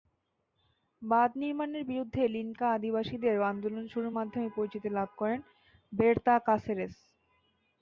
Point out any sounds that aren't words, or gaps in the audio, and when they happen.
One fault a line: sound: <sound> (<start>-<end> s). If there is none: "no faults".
no faults